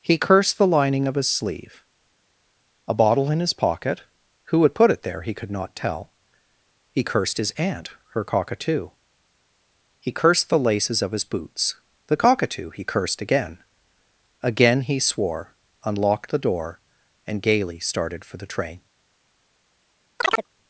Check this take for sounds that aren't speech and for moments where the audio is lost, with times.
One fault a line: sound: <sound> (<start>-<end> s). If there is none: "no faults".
sound: chirp (20.2-20.5 s)